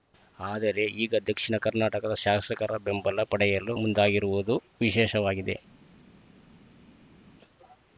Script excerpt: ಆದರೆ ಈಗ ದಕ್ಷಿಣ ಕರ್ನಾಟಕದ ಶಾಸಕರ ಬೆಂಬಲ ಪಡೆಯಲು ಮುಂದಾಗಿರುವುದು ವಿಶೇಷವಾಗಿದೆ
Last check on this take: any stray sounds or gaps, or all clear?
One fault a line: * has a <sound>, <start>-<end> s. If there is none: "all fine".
all fine